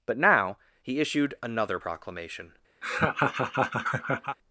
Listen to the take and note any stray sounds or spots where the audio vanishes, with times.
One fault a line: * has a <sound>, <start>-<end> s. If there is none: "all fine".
* has a laugh, 2.8-4.4 s